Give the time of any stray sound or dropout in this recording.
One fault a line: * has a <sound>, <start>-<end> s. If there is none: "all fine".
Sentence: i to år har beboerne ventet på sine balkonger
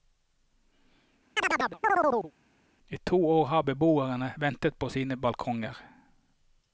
* has a chirp, 1.4-2.3 s